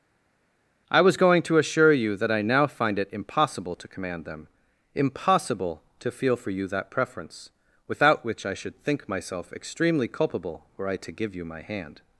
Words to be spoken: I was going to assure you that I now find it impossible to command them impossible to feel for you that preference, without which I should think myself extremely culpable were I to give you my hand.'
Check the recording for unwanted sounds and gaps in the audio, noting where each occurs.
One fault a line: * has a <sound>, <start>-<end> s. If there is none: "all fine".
all fine